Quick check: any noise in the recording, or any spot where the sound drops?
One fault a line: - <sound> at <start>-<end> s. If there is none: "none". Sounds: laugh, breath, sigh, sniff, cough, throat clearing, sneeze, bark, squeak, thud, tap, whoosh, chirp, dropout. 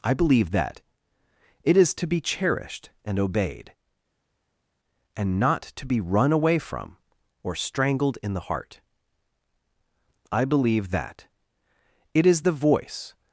none